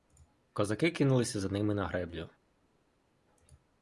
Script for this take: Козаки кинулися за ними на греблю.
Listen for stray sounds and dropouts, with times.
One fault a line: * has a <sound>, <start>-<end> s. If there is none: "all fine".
all fine